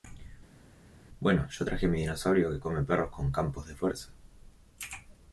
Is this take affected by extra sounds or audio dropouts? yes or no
no